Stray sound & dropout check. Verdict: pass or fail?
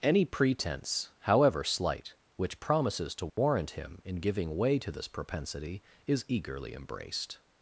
fail